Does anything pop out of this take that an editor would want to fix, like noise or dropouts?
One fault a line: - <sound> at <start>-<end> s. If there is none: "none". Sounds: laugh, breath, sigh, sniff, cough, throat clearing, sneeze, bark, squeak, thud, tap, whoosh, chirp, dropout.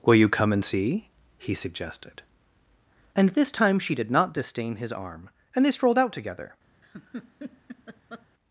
- laugh at 6.8-8.3 s